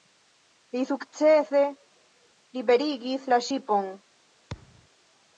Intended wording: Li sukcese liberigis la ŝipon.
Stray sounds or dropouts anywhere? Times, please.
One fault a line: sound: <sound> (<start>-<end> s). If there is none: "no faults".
sound: thud (4.5-4.9 s)